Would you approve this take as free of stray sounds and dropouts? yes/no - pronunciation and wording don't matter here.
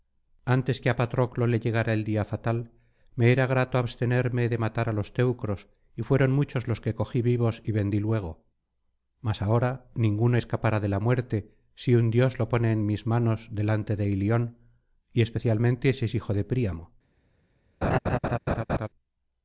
no